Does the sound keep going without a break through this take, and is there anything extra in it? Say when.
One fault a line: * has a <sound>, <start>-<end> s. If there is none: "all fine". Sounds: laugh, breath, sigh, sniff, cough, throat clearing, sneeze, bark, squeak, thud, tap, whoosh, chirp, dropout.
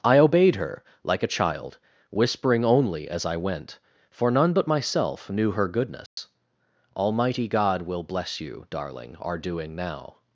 * has a dropout, 6.1-6.2 s